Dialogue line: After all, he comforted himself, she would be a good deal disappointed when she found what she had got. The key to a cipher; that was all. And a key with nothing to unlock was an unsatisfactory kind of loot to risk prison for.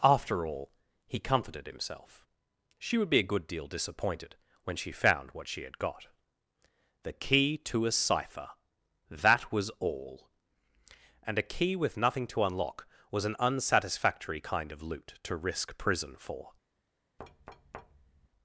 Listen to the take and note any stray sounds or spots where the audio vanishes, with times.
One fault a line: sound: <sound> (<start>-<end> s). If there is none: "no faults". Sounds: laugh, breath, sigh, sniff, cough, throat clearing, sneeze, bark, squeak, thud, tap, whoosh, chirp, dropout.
sound: thud (17.2-18.3 s)